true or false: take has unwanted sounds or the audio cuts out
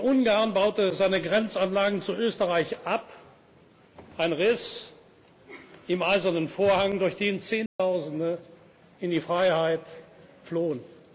true